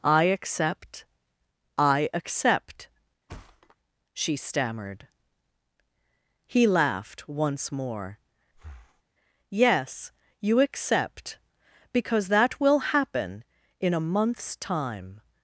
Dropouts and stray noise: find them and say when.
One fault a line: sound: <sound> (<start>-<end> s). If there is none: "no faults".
sound: thud (3.3-3.8 s)
sound: breath (8.5-9.0 s)